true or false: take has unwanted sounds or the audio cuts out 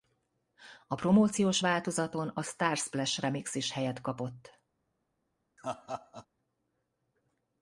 true